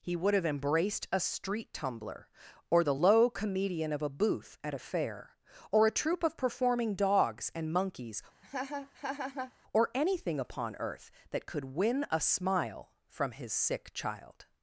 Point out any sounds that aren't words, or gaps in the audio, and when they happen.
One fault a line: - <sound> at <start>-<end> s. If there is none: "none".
- laugh at 8.4-9.5 s